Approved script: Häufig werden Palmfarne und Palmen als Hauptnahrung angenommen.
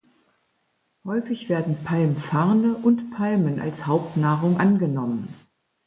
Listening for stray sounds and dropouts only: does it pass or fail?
pass